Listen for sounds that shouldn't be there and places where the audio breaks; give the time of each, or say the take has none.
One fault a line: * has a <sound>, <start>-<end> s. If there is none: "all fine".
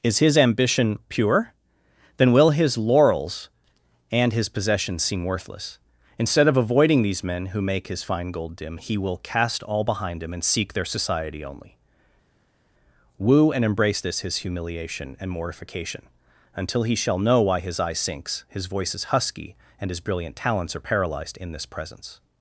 all fine